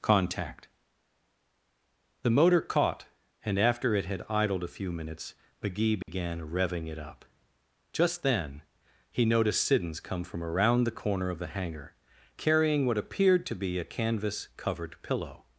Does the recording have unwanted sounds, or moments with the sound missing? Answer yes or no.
yes